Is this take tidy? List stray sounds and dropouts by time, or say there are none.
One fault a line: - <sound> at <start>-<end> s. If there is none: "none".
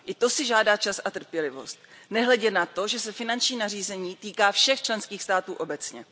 none